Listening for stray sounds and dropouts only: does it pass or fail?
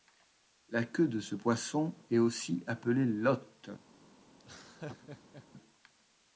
fail